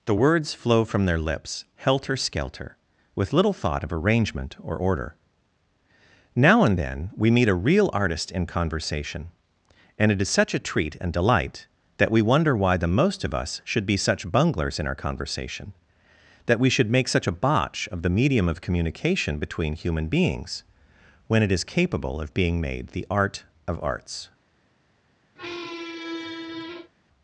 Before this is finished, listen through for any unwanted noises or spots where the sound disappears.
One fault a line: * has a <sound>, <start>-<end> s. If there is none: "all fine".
* has a squeak, 25.4-26.9 s